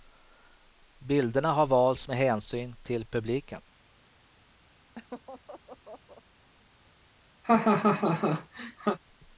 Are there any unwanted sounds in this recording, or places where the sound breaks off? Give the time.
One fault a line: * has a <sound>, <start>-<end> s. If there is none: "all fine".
* has a laugh, 5.0-6.2 s
* has a laugh, 7.4-9.0 s